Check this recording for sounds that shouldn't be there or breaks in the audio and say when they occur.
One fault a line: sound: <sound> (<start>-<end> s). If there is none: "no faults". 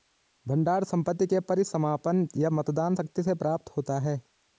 no faults